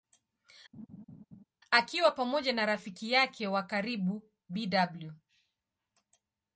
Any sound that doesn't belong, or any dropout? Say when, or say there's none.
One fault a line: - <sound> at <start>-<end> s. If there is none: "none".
- laugh at 0.7-1.4 s